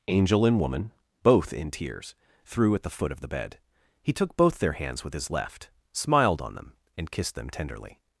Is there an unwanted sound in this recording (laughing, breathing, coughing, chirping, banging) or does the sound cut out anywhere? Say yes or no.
no